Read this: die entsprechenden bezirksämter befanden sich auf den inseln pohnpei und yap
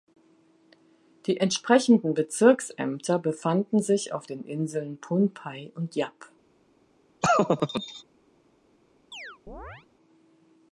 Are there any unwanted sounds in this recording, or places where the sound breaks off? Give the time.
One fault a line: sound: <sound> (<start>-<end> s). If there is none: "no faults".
sound: laugh (7.2-8.0 s)
sound: chirp (9.1-9.9 s)